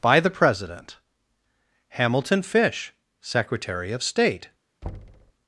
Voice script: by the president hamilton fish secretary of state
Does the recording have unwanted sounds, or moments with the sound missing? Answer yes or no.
yes